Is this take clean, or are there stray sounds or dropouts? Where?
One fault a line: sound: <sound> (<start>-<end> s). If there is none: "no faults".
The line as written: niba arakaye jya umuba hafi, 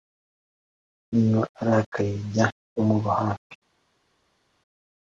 no faults